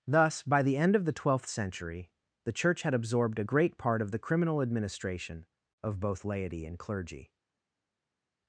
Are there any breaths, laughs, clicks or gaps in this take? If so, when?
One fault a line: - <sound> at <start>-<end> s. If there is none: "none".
none